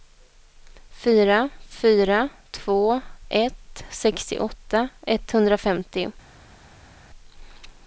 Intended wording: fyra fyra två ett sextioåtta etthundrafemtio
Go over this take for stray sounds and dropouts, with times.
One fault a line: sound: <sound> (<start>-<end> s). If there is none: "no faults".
no faults